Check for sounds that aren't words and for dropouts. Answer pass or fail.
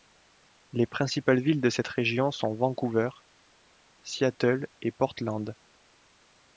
pass